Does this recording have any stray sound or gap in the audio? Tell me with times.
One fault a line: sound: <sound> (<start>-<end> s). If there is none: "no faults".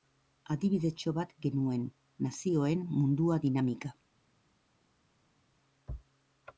no faults